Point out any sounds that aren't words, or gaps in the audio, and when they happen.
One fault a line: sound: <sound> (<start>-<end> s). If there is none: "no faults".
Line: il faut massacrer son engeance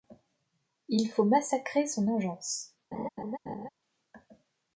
sound: laugh (2.9-3.7 s)